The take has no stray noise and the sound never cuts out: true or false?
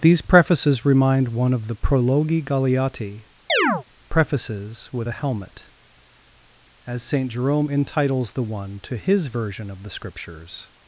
false